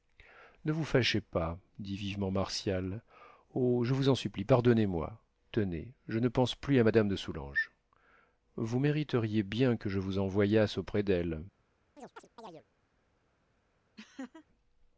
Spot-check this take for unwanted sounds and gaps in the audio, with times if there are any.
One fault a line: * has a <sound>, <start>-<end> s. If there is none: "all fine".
* has a chirp, 12.0-12.6 s
* has a laugh, 14.0-14.5 s